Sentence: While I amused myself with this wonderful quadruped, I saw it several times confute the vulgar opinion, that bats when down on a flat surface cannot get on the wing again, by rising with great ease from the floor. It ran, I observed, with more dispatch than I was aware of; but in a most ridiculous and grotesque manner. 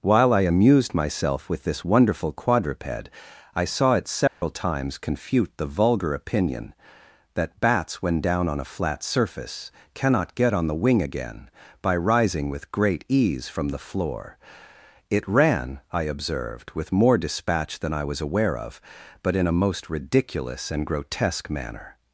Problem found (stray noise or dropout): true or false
true